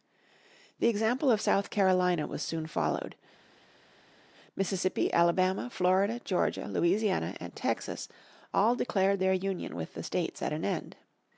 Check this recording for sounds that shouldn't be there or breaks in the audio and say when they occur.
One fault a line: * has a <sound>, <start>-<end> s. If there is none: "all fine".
all fine